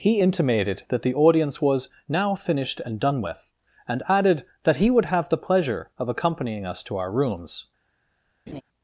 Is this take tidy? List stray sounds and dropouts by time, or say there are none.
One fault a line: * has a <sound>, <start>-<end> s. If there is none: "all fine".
* has a laugh, 8.5-8.6 s